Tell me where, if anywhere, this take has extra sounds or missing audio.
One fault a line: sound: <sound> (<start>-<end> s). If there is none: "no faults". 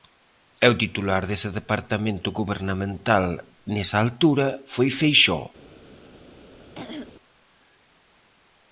sound: throat clearing (6.8-7.1 s)